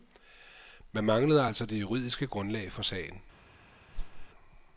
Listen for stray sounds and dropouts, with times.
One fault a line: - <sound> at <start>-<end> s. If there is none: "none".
- whoosh at 3.9-4.3 s